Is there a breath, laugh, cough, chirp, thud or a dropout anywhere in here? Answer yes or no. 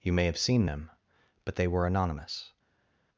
no